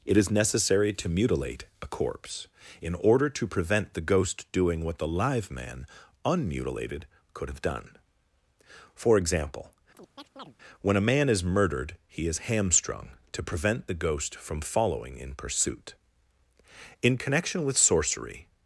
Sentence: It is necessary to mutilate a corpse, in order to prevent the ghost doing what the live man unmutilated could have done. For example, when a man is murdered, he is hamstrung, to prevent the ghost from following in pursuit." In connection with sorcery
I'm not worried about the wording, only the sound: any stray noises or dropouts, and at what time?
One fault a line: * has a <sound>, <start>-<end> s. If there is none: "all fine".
* has a chirp, 9.9-10.6 s